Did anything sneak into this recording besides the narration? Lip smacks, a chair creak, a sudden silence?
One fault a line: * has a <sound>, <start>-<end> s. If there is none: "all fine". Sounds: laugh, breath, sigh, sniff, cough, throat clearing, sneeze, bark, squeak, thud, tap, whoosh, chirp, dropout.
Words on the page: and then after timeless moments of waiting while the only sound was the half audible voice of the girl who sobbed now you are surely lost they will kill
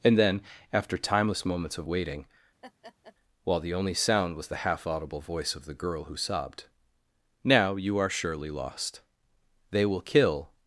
* has a laugh, 2.6-3.2 s